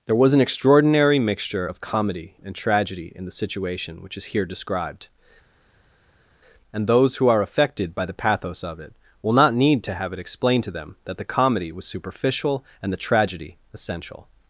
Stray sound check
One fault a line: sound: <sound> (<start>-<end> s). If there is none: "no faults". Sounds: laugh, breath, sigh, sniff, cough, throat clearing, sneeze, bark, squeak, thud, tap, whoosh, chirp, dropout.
no faults